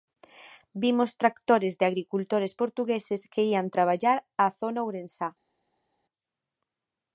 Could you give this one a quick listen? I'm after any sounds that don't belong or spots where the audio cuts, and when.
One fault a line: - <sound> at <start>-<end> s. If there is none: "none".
none